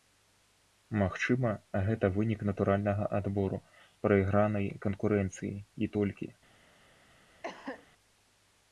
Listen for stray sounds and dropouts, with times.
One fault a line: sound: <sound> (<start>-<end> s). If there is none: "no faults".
sound: cough (7.4-7.9 s)